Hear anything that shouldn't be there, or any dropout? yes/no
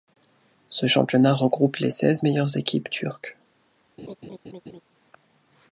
yes